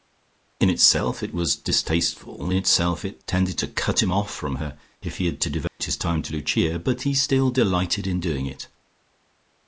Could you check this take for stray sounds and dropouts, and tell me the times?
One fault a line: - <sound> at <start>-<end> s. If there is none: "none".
- dropout at 5.7-5.8 s